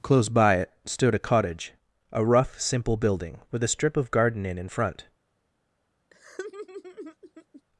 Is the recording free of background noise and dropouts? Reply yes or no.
no